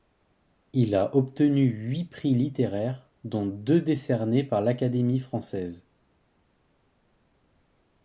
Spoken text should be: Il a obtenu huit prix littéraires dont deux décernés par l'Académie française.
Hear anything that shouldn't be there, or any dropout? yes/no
no